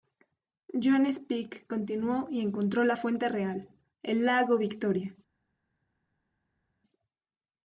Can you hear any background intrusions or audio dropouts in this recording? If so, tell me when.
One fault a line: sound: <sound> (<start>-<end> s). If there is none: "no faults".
no faults